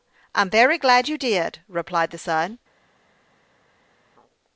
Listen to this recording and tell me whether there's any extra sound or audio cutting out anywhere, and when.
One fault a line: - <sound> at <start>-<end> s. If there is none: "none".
none